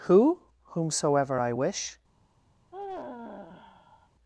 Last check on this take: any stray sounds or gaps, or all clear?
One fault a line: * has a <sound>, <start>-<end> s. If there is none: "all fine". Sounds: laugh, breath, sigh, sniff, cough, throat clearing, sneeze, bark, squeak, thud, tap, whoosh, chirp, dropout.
* has a sigh, 2.7-4.1 s